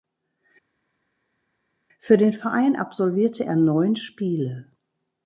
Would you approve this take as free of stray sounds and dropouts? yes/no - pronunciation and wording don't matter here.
yes